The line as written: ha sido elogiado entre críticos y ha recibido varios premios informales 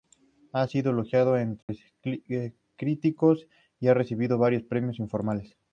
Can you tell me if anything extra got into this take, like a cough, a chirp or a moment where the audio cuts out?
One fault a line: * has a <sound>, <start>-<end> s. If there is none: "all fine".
* has a dropout, 1.6-1.7 s